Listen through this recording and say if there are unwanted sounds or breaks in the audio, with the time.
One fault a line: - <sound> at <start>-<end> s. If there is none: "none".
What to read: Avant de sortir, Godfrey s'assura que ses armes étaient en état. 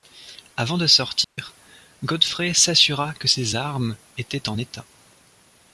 - dropout at 1.2-1.4 s